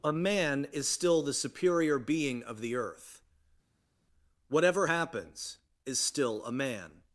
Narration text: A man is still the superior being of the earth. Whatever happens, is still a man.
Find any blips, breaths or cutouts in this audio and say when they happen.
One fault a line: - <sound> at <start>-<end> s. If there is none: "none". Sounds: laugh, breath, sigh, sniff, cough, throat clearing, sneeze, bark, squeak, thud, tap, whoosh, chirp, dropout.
none